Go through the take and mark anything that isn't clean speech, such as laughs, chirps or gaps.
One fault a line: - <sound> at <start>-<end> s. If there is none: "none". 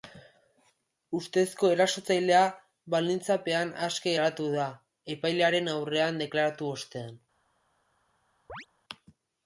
- chirp at 8.5-8.7 s